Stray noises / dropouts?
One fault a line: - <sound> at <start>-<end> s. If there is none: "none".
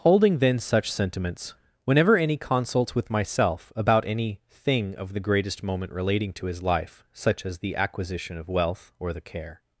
none